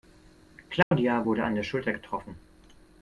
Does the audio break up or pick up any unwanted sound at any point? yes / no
yes